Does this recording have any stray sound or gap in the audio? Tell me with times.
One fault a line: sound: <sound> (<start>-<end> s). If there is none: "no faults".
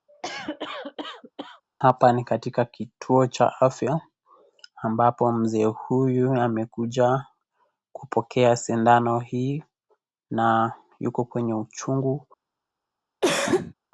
sound: cough (0.1-1.6 s)
sound: cough (13.2-13.7 s)